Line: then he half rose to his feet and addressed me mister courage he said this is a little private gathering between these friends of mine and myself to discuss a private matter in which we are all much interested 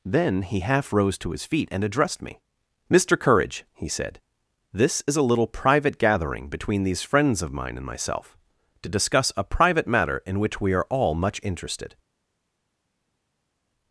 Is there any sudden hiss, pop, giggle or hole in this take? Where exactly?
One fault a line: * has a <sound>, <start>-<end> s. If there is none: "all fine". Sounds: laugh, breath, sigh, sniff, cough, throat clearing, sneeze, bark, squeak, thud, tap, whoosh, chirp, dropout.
all fine